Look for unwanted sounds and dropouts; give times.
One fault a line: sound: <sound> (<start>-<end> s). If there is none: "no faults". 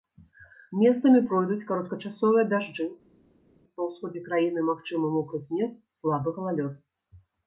no faults